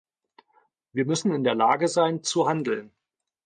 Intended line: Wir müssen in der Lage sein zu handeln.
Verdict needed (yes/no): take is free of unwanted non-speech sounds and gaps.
yes